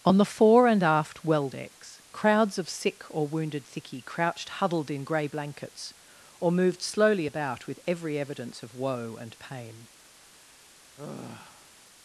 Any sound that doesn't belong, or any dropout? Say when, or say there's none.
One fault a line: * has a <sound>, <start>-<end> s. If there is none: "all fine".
* has a sigh, 11.0-11.7 s